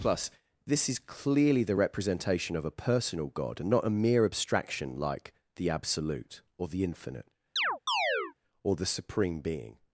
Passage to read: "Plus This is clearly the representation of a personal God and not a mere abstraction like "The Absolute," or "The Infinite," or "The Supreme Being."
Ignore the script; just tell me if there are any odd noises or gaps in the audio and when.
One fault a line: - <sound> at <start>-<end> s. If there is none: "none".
- chirp at 7.6-8.3 s